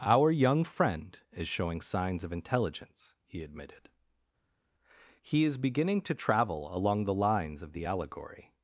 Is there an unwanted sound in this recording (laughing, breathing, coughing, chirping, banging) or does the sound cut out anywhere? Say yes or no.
no